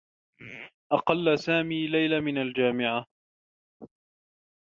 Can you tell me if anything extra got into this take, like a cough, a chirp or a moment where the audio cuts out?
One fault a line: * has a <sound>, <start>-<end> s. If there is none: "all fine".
all fine